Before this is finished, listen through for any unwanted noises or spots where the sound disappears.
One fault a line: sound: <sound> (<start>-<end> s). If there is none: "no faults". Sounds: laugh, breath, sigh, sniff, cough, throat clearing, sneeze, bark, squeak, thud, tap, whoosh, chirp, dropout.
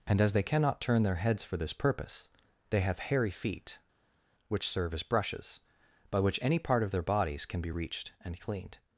no faults